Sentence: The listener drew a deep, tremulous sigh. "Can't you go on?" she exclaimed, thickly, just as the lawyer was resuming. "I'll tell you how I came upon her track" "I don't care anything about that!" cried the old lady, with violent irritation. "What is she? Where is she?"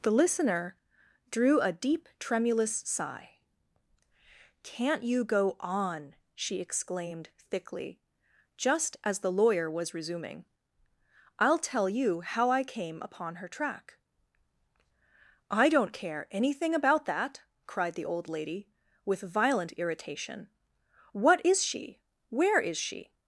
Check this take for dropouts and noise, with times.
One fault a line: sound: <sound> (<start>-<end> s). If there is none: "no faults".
no faults